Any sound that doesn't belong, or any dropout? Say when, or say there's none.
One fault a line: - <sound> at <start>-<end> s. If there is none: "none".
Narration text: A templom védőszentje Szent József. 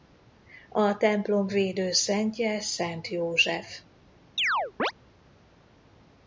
- chirp at 4.4-4.9 s